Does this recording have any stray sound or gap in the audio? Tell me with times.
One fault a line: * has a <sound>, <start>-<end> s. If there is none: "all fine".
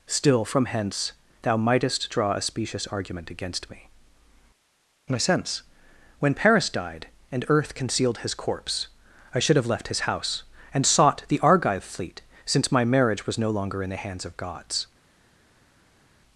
all fine